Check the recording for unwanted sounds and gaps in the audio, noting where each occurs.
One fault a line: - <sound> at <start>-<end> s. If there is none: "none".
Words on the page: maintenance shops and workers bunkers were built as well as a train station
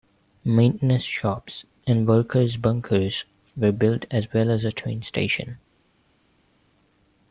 none